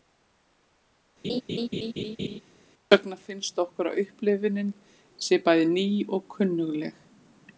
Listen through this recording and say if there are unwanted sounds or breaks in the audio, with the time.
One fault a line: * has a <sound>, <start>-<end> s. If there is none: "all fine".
* has a laugh, 1.2-2.4 s